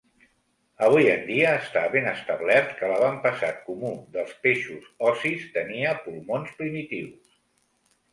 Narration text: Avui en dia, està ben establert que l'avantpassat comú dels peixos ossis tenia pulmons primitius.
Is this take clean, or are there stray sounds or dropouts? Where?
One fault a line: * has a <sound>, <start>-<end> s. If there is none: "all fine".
all fine